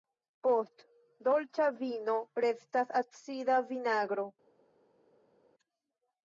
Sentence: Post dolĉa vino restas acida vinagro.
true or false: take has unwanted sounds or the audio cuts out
false